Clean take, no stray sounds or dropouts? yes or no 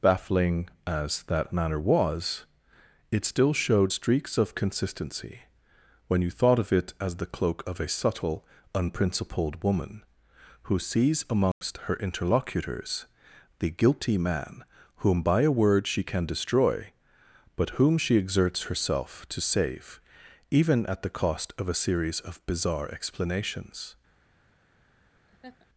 no